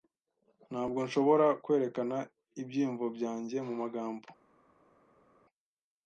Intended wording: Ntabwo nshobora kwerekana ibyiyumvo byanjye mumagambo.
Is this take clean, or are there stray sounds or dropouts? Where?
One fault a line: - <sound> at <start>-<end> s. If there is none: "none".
none